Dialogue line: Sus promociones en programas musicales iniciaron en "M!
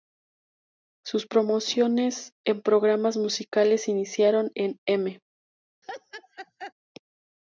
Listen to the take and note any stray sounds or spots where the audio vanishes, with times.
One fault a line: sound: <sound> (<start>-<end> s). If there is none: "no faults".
sound: laugh (5.8-6.7 s)